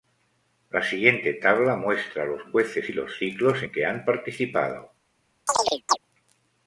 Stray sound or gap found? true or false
true